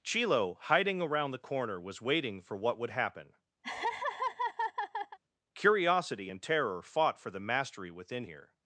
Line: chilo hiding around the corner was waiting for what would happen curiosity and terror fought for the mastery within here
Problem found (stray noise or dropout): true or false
true